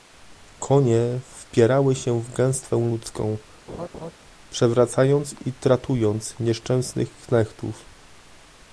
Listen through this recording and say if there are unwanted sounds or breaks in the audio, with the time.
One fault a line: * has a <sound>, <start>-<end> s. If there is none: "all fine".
* has a laugh, 3.7-4.1 s